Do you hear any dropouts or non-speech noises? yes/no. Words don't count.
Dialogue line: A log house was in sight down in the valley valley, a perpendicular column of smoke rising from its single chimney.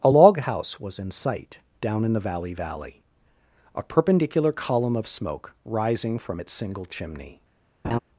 yes